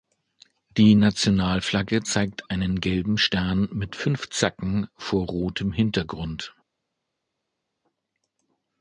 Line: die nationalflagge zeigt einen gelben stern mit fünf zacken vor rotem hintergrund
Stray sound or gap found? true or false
false